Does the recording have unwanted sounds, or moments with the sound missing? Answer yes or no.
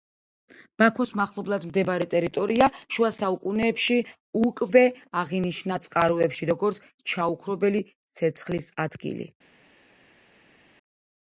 no